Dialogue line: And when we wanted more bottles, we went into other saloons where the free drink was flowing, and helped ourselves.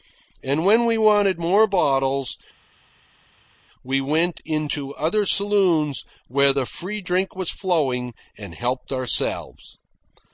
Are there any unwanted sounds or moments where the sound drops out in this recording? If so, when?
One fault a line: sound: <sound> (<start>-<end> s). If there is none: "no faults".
no faults